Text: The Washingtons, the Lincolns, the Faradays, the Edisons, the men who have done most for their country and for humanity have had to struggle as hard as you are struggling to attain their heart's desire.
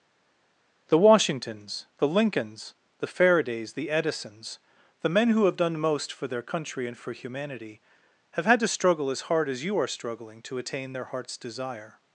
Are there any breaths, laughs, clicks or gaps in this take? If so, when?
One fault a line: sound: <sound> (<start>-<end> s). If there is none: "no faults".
no faults